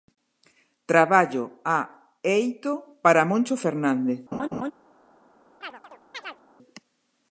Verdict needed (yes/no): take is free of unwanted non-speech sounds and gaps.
no